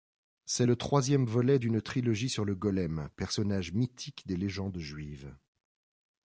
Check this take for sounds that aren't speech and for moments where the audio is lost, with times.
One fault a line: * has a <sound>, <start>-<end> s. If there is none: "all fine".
all fine